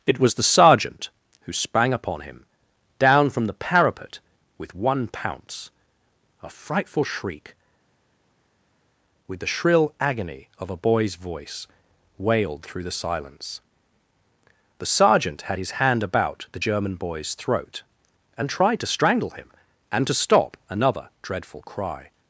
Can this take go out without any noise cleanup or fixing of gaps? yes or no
yes